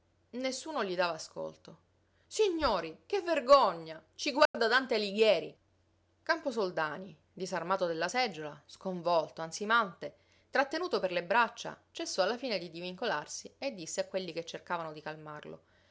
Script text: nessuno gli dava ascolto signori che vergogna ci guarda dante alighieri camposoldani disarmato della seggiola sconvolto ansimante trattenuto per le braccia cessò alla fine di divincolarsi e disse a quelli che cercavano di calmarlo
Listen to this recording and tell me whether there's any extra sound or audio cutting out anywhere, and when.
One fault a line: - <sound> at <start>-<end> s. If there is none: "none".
- dropout at 4.5-4.5 s